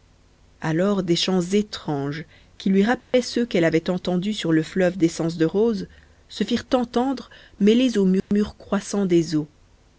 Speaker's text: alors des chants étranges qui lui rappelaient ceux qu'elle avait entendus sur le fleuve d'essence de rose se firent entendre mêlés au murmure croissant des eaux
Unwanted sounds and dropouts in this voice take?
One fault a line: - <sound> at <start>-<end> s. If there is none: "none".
- dropout at 3.0-3.1 s
- dropout at 8.2-8.3 s